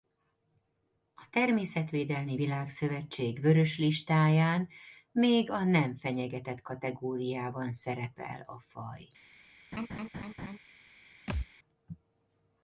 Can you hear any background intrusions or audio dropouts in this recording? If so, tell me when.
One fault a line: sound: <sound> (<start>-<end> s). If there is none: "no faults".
sound: laugh (9.7-10.6 s)
sound: thud (11.3-11.5 s)